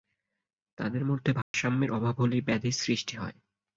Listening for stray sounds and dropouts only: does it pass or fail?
fail